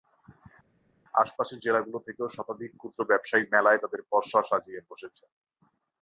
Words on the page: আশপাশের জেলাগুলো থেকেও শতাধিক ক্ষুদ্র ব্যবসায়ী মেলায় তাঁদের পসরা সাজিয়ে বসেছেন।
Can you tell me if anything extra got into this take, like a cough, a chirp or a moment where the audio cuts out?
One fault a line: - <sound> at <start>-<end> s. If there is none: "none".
none